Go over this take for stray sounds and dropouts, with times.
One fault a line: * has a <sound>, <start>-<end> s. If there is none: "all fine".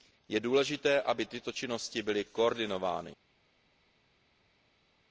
all fine